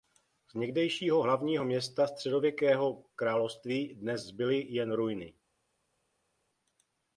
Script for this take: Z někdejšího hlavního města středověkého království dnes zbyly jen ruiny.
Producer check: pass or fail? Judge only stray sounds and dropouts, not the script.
pass